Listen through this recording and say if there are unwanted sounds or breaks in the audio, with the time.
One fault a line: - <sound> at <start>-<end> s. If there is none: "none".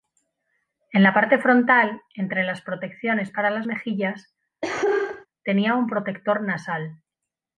- cough at 4.6-5.3 s